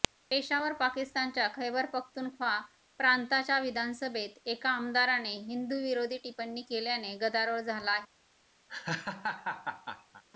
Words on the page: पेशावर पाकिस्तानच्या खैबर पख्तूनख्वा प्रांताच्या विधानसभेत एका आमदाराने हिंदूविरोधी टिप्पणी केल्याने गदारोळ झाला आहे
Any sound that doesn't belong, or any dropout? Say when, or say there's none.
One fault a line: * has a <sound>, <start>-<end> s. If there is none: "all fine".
* has a laugh, 8.7-10.2 s